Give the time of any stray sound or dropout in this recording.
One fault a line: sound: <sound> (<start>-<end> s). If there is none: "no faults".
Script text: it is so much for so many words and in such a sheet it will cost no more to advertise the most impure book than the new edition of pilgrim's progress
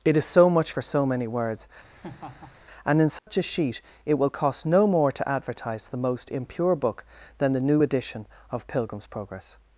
sound: laugh (1.8-2.6 s)
sound: dropout (3.2-3.3 s)